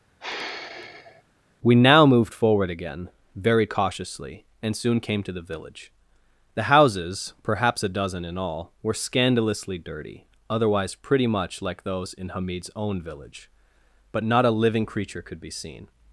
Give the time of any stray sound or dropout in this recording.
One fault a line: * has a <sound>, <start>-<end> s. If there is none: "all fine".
* has a sigh, 0.2-1.2 s